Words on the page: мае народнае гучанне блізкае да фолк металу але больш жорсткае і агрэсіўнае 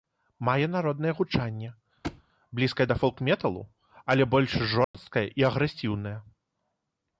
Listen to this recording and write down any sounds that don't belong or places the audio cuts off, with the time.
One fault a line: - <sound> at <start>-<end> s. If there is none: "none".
- thud at 2.0-2.2 s
- dropout at 4.8-4.9 s